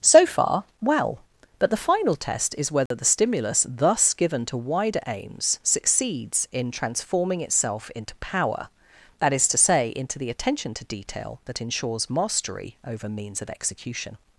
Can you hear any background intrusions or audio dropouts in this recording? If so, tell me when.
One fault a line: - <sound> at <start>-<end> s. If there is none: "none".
- dropout at 2.9-2.9 s